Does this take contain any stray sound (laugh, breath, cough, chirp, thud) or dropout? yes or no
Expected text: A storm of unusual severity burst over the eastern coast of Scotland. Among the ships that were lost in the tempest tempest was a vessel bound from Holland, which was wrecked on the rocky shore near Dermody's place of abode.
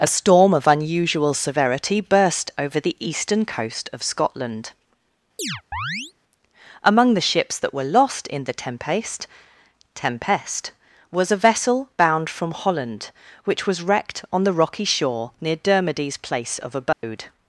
yes